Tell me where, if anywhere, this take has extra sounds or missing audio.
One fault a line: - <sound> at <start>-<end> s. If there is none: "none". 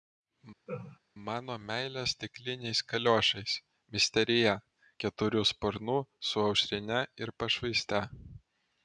- laugh at 0.7-1.0 s